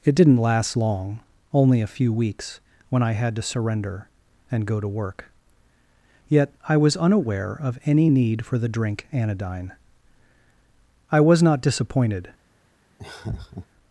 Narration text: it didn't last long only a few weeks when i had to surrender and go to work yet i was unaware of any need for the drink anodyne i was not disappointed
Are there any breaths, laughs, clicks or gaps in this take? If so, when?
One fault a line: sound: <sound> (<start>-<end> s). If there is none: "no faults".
sound: laugh (13.0-13.7 s)